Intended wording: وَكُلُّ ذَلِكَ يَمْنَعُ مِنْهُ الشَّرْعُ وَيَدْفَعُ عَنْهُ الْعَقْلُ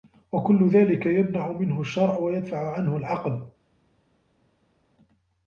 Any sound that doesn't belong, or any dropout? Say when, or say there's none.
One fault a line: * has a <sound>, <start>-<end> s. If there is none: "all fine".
all fine